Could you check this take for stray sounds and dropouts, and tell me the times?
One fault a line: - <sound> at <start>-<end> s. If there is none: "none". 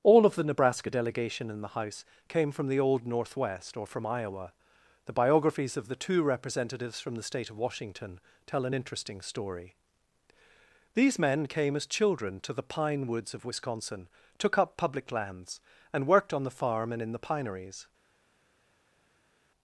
none